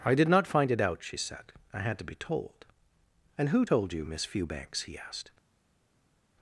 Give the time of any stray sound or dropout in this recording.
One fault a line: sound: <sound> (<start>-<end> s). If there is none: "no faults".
no faults